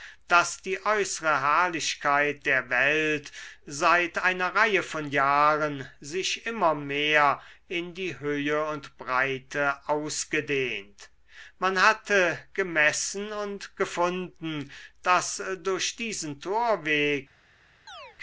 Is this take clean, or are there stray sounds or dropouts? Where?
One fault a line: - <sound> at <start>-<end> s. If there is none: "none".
- chirp at 17.9-18.2 s